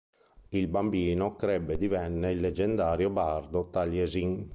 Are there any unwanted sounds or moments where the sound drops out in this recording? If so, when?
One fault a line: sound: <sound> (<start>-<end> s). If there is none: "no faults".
no faults